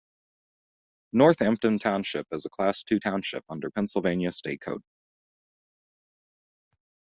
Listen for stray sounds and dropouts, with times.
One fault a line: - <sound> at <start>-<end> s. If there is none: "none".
none